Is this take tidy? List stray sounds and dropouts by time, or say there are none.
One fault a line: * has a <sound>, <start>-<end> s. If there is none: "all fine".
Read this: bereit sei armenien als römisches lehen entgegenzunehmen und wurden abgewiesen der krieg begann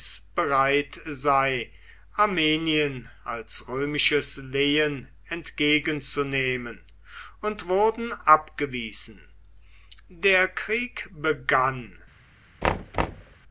* has a thud, 12.6-13.4 s